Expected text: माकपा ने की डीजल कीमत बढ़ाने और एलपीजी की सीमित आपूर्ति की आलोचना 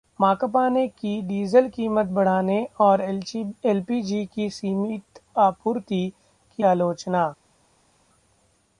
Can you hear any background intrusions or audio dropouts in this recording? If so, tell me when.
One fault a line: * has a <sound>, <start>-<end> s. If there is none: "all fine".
all fine